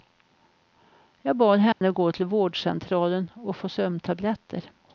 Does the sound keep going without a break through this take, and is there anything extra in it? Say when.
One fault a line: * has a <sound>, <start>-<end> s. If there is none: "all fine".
* has a dropout, 1.7-1.8 s